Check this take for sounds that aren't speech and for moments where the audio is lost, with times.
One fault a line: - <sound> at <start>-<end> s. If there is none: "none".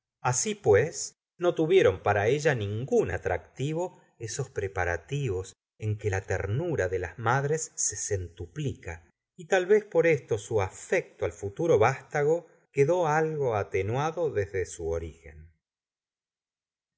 none